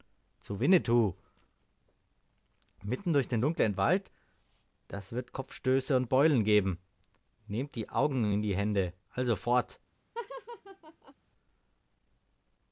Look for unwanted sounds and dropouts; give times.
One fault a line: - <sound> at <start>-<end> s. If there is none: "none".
- laugh at 10.1-11.1 s